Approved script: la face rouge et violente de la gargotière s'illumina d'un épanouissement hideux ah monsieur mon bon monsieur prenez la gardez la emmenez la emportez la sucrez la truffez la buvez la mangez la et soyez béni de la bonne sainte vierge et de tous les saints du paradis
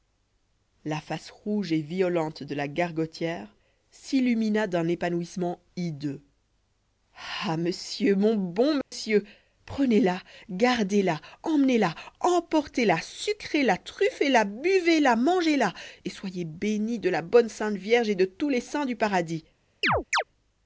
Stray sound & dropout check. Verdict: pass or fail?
fail